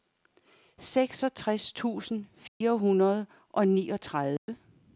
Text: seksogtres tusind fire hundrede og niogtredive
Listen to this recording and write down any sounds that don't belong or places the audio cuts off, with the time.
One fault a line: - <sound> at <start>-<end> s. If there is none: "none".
- dropout at 2.5-2.6 s
- dropout at 4.4-4.5 s